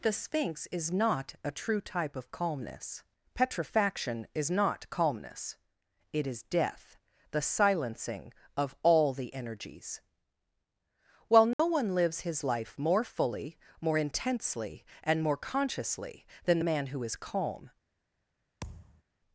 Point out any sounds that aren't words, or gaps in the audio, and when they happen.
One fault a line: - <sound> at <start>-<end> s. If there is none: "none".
- dropout at 11.5-11.6 s
- thud at 18.6-19.0 s